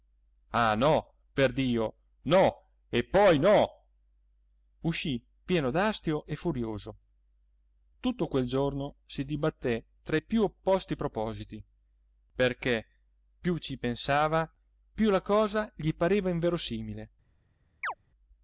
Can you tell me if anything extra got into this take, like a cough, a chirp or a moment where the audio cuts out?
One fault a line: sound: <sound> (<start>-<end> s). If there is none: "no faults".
sound: chirp (17.8-17.9 s)